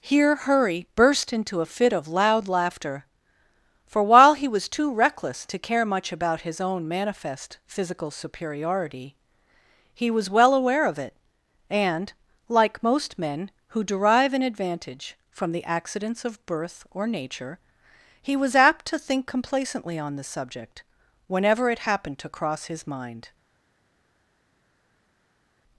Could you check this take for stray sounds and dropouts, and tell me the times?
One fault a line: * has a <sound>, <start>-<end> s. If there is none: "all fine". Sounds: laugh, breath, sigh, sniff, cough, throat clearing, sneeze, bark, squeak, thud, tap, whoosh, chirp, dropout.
all fine